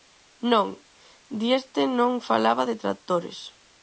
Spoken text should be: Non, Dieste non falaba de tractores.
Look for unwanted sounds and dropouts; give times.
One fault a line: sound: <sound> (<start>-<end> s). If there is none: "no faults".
no faults